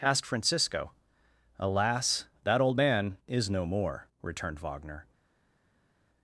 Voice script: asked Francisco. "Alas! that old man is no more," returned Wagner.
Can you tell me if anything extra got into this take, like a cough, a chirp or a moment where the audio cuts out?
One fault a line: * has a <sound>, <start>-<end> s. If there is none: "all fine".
all fine